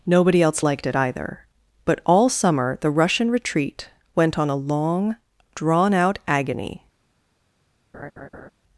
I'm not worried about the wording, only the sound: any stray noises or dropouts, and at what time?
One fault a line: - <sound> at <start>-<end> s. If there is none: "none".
- laugh at 7.9-8.5 s